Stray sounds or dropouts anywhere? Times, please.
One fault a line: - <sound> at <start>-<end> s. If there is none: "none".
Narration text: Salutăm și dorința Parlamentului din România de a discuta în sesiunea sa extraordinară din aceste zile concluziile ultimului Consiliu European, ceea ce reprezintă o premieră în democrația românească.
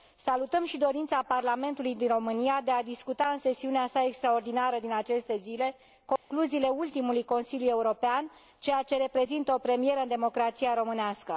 - dropout at 6.2-6.3 s